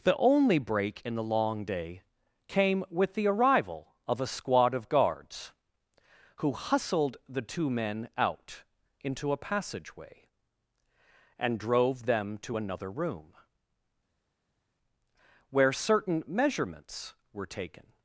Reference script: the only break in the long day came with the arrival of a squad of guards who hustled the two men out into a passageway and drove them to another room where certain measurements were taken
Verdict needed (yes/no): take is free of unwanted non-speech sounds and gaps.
yes